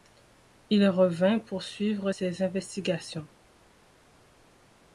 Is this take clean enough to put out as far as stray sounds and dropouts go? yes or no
yes